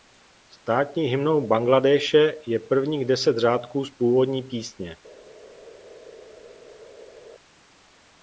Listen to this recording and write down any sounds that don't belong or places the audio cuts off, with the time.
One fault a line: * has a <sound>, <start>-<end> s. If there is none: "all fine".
all fine